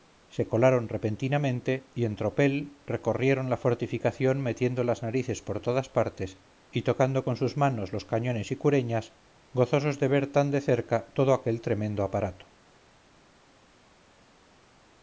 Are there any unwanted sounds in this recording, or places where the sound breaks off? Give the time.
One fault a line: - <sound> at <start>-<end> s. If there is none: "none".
none